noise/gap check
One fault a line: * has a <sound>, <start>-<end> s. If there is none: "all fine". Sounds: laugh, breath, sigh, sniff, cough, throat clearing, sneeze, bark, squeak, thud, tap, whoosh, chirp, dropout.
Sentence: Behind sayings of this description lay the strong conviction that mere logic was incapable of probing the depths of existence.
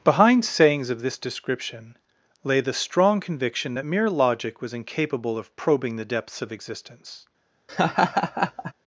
* has a laugh, 7.7-8.7 s